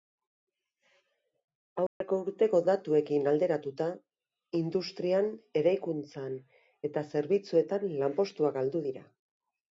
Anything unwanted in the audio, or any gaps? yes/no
yes